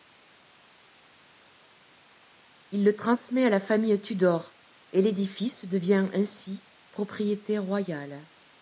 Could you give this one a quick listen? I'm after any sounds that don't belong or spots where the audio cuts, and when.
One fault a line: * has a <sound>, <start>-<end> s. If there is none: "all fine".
all fine